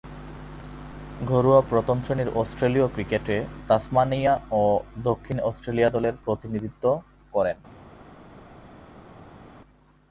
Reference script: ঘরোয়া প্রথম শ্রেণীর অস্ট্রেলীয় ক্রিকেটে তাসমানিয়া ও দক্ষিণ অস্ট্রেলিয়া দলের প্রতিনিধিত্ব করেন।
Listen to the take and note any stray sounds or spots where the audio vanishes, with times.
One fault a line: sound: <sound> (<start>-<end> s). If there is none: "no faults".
no faults